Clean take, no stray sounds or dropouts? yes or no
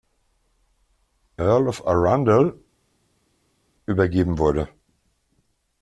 yes